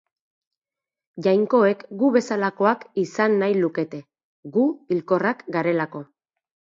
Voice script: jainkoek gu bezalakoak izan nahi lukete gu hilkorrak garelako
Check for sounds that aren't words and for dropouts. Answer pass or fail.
pass